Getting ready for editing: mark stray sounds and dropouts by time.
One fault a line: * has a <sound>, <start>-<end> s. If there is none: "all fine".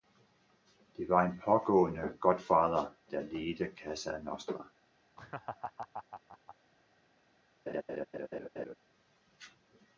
* has a laugh, 5.2-6.6 s
* has a laugh, 7.7-8.8 s